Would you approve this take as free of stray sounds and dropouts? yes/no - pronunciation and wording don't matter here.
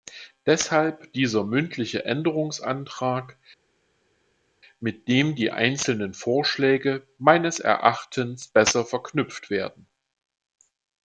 yes